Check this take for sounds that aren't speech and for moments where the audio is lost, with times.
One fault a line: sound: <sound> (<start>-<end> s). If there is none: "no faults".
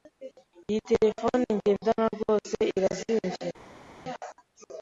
no faults